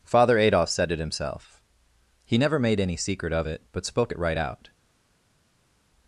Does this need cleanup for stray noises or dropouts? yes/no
no